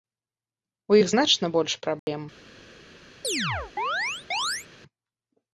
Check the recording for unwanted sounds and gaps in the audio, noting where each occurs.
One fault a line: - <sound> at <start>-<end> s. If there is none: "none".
- dropout at 2.0-2.1 s
- chirp at 3.2-4.7 s